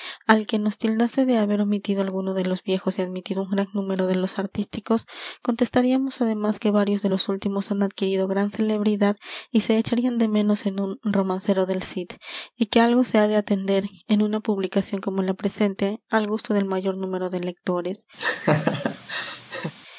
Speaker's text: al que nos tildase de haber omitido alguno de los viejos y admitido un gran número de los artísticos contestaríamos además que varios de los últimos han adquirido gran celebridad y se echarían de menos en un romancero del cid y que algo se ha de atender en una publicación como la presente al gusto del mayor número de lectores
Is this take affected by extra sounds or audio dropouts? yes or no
yes